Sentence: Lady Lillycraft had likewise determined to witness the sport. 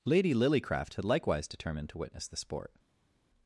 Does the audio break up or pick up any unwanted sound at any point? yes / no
no